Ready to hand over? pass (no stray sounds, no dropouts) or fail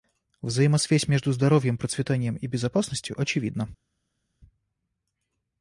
pass